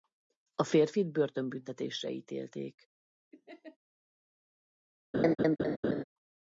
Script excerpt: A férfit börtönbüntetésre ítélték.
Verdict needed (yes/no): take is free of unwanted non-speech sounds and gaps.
no